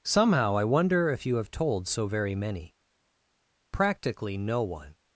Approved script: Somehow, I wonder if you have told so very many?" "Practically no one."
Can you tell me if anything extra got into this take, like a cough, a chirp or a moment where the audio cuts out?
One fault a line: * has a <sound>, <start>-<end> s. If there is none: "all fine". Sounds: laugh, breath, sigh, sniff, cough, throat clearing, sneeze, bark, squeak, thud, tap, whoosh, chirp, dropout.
all fine